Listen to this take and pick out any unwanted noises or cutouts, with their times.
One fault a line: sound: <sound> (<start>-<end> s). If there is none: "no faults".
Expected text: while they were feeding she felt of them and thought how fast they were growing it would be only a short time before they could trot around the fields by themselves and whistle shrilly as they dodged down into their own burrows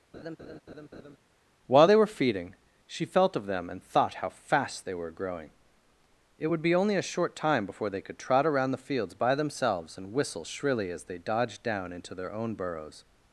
sound: laugh (0.1-1.2 s)